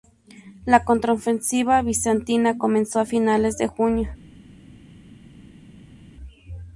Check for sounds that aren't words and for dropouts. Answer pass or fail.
pass